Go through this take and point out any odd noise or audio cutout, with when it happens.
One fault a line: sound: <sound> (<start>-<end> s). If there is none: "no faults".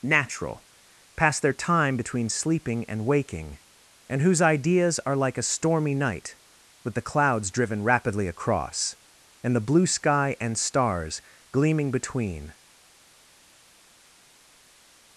no faults